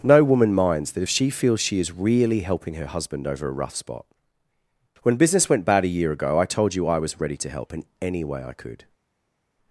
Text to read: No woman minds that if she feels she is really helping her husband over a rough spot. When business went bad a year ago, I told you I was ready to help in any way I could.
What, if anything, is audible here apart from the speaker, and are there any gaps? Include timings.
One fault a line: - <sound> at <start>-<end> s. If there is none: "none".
none